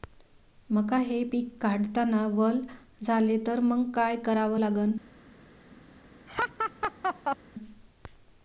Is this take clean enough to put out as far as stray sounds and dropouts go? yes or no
no